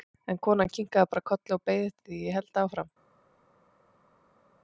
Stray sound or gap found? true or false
false